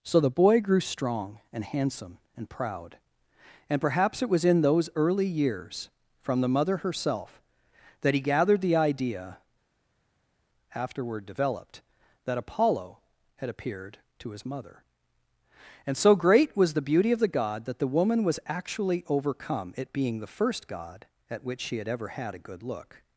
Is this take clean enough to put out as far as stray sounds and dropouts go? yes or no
yes